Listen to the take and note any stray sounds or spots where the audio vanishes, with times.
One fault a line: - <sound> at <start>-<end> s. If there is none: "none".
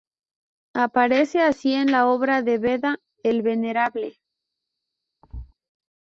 - thud at 5.2-5.5 s